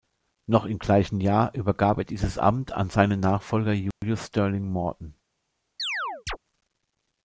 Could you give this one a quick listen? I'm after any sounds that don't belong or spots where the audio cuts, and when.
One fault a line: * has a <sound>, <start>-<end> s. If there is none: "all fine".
* has a dropout, 3.9-4.0 s
* has a chirp, 5.8-6.4 s